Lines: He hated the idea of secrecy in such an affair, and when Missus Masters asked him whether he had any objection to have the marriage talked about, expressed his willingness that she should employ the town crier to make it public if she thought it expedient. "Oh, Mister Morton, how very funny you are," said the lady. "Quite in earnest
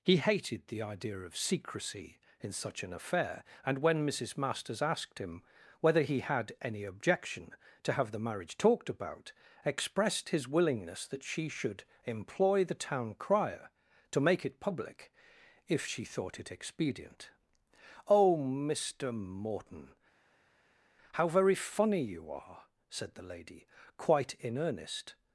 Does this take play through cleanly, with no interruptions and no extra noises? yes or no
yes